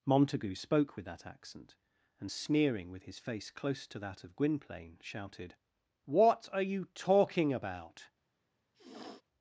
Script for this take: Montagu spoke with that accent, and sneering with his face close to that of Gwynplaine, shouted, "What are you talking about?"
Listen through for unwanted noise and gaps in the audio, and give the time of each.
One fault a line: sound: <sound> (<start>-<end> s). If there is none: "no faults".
sound: sniff (8.7-9.2 s)